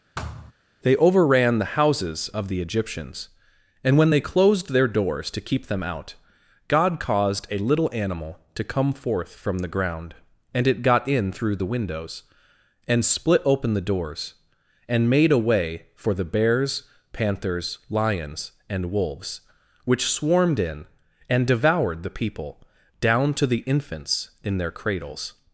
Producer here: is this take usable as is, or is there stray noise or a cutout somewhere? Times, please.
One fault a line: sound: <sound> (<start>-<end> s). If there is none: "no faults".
sound: thud (0.2-0.5 s)